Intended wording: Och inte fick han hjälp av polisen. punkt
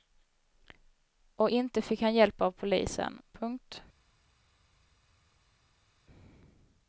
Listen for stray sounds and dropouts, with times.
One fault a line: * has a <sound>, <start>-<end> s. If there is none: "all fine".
all fine